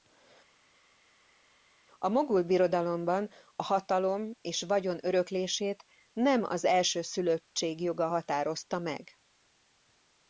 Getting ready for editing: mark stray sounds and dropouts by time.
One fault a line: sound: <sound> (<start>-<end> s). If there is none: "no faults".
no faults